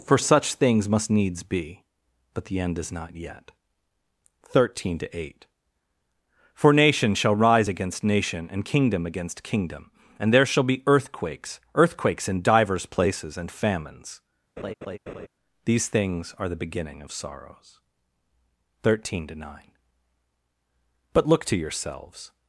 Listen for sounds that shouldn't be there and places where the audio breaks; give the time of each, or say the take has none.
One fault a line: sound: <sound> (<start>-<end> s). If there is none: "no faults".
sound: laugh (14.6-15.3 s)